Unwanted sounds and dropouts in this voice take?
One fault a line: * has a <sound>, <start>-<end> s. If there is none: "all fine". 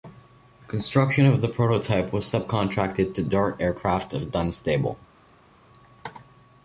all fine